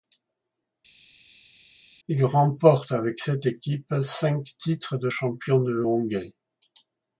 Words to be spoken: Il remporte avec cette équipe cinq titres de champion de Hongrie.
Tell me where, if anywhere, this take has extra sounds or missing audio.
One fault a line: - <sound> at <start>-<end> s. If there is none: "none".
none